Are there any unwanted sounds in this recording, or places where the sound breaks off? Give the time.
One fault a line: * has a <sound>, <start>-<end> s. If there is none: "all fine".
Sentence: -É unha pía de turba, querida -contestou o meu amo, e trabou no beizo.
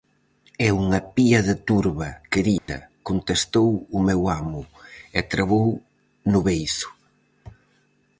* has a dropout, 2.6-2.7 s